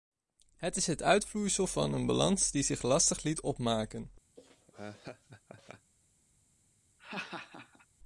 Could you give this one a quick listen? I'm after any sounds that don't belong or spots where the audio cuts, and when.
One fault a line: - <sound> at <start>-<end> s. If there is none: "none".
- laugh at 4.4-5.9 s
- laugh at 7.0-7.9 s